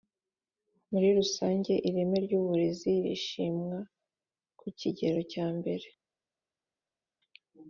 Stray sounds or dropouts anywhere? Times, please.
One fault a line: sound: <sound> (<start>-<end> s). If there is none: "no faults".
no faults